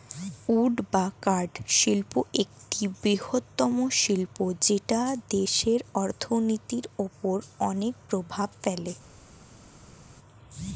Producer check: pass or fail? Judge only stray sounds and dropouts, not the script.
pass